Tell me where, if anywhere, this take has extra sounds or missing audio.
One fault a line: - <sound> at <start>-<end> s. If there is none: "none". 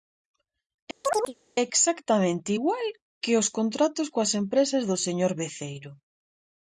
- chirp at 1.0-1.3 s